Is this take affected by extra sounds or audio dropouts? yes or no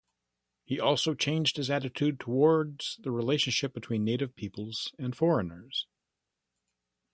no